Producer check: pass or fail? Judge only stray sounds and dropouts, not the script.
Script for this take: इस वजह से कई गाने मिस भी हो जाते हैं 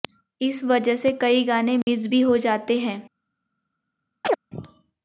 fail